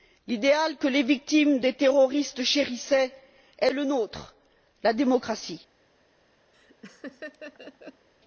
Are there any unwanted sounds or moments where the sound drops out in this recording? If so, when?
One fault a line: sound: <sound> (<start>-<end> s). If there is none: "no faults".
sound: laugh (6.5-8.1 s)